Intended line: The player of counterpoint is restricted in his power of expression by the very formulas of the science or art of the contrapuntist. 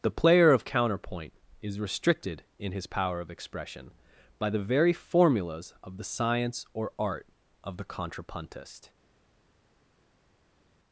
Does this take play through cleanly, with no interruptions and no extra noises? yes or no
yes